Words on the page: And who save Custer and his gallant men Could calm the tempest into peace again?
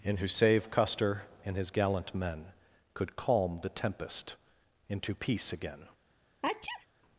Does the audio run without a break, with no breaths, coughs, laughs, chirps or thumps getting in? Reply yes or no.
no